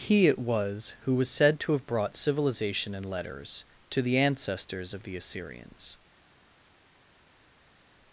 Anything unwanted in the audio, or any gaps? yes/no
no